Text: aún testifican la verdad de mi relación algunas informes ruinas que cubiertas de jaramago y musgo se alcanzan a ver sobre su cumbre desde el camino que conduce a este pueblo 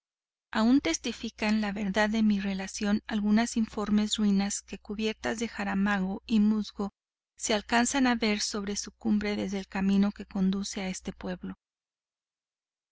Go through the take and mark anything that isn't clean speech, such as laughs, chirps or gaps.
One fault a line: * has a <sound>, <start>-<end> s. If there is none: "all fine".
all fine